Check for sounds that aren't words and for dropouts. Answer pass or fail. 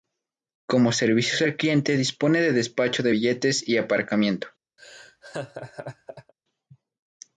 fail